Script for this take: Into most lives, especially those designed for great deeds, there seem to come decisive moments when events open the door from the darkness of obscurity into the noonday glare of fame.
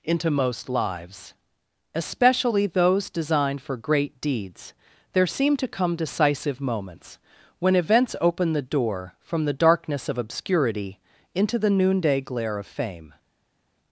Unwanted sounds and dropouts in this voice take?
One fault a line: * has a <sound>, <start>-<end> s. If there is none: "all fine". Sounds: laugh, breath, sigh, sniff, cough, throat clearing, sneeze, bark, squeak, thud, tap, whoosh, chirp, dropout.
all fine